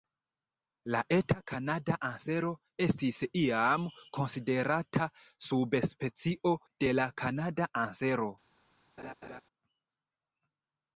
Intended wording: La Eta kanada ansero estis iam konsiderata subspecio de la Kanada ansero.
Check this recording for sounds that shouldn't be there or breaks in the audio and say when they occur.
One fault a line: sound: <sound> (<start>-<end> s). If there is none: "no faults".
sound: laugh (9.0-9.4 s)